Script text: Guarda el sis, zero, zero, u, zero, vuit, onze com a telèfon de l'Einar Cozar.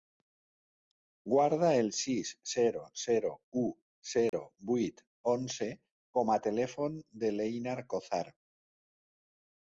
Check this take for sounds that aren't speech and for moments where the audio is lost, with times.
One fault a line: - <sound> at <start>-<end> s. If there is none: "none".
- dropout at 4.3-4.3 s